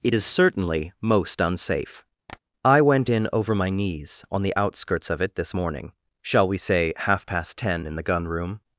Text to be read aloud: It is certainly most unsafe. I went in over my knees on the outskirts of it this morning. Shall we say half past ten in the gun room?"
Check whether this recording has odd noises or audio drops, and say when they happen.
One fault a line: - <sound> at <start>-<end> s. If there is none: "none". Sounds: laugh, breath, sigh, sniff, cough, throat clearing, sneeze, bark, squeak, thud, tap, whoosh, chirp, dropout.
- tap at 2.3-2.4 s